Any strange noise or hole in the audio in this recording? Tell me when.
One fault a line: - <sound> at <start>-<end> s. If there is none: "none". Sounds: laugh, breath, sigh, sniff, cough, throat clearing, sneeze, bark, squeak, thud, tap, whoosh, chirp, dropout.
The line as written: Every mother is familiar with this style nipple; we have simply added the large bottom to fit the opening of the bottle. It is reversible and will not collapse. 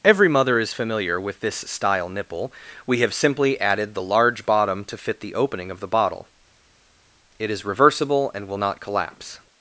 none